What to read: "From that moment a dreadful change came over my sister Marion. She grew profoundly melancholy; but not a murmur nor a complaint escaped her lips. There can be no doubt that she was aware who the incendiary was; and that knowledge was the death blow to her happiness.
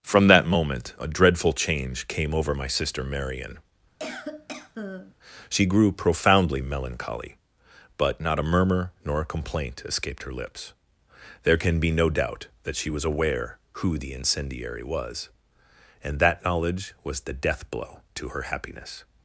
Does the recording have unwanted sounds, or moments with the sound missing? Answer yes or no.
yes